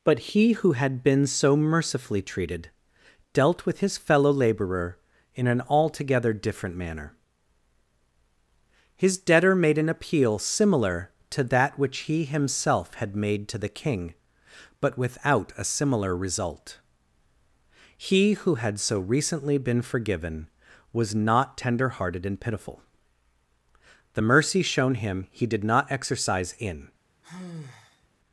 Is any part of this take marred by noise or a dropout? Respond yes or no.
yes